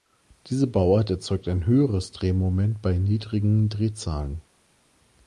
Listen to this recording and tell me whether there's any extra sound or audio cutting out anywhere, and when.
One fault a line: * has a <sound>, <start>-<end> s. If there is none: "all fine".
all fine